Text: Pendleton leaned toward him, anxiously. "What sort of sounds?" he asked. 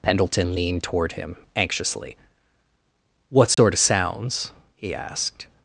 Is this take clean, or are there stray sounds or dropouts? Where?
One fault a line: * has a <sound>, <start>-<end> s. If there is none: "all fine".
* has a dropout, 3.5-3.6 s